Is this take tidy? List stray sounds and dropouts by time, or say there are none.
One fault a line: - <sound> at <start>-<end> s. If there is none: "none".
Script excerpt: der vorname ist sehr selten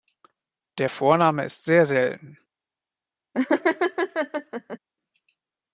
- laugh at 3.3-4.8 s